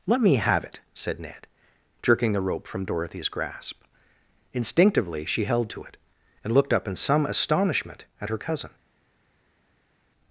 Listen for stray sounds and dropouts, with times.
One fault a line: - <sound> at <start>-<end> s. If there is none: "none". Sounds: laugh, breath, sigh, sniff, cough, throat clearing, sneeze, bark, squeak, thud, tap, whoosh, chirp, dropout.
none